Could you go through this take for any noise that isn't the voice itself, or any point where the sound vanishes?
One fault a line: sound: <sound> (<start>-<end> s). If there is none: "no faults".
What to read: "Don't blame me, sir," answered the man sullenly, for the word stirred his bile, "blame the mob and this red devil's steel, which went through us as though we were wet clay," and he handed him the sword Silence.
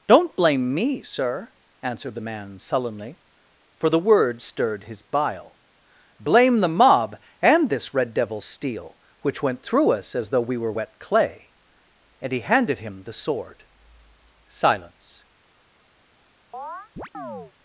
sound: chirp (16.5-17.5 s)